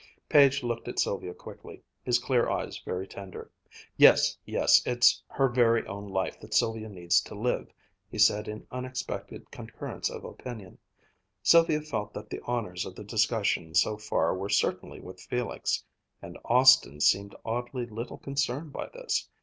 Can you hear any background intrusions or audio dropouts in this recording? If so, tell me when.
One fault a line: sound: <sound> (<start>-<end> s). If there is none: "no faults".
no faults